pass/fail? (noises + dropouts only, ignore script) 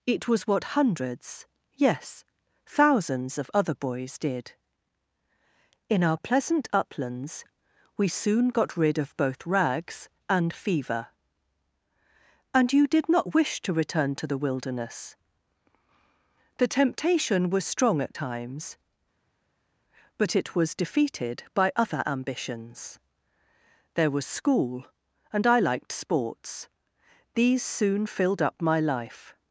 pass